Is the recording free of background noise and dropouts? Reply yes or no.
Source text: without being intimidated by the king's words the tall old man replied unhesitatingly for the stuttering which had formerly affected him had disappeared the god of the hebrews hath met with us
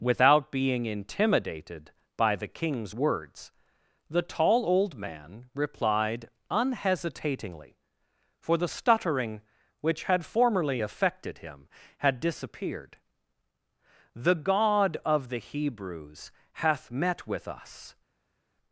yes